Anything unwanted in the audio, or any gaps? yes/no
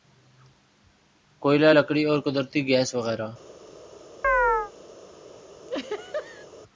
yes